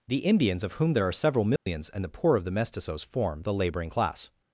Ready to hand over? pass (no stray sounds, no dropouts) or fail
fail